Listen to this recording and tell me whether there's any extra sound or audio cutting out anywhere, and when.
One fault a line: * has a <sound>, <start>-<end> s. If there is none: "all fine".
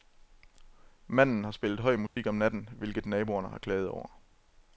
* has a dropout, 2.1-2.2 s